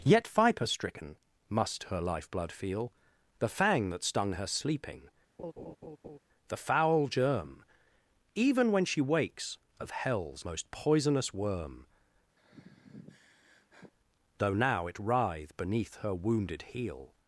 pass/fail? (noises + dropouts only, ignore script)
fail